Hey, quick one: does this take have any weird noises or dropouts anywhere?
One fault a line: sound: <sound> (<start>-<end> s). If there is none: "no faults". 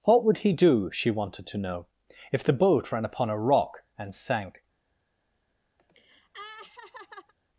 sound: laugh (5.8-7.3 s)